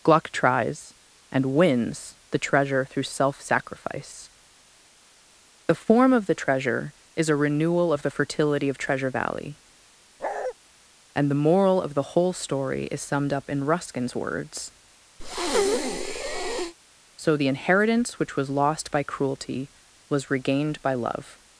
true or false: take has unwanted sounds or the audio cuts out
true